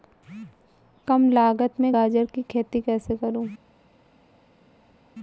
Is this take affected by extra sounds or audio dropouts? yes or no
no